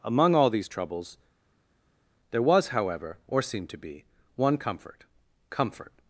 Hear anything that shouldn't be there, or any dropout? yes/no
no